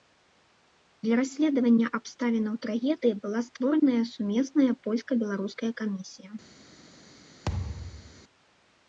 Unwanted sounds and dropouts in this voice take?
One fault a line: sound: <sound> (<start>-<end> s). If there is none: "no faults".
sound: thud (7.5-8.2 s)